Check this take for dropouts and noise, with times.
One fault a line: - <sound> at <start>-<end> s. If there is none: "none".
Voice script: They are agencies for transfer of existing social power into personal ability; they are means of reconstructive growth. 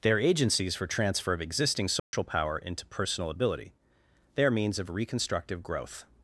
- dropout at 2.0-2.1 s